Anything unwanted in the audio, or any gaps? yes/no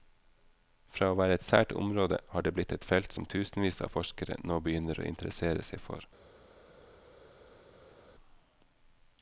no